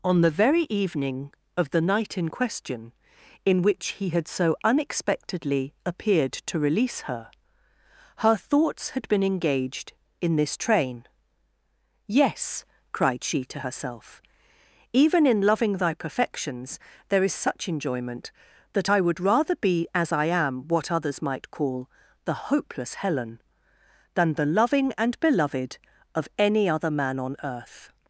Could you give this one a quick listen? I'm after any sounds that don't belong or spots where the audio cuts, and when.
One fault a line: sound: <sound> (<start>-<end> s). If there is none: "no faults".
no faults